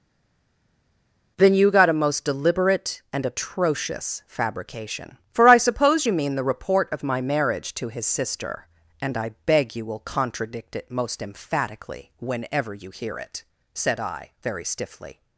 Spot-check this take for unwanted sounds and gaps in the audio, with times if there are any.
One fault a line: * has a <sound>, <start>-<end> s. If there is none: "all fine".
all fine